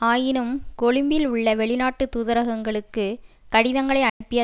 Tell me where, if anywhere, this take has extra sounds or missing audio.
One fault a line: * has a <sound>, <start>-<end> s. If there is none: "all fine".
* has a dropout, 4.1-4.2 s